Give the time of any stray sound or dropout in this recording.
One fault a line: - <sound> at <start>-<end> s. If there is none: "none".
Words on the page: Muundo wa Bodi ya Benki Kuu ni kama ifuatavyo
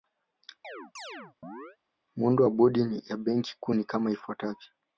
- chirp at 0.6-1.8 s